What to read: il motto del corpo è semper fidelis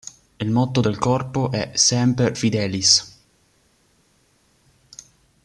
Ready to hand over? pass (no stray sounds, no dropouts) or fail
pass